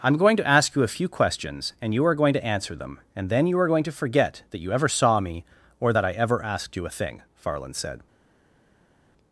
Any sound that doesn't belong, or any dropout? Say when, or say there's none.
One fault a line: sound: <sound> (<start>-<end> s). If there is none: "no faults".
no faults